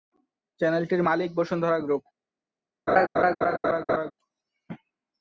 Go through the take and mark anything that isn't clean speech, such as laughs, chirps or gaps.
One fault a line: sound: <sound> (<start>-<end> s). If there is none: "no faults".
sound: laugh (2.9-4.1 s)